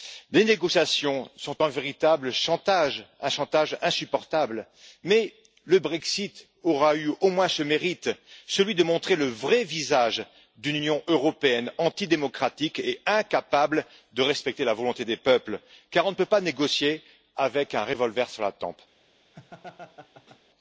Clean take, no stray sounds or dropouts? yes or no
no